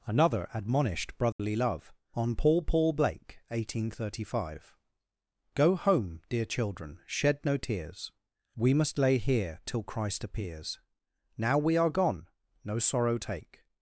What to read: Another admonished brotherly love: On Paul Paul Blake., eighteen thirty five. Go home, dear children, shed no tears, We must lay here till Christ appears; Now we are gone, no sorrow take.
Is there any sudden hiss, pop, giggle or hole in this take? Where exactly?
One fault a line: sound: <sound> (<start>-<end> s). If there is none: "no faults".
sound: dropout (1.3-1.4 s)